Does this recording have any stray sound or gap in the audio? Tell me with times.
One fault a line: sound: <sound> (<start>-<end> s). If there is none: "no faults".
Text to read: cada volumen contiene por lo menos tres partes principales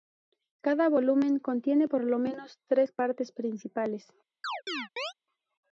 sound: chirp (4.4-5.1 s)